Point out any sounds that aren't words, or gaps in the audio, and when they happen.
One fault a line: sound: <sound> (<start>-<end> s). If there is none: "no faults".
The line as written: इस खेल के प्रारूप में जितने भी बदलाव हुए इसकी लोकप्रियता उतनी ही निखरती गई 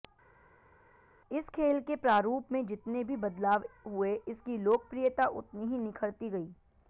no faults